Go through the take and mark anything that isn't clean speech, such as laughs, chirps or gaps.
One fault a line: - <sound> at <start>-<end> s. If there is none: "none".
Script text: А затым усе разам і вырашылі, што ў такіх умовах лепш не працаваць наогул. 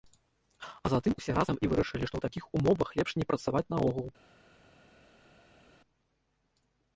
none